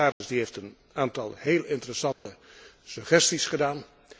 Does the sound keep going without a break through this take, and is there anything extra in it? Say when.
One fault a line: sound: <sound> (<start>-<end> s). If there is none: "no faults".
sound: dropout (0.1-0.2 s)
sound: dropout (2.1-2.3 s)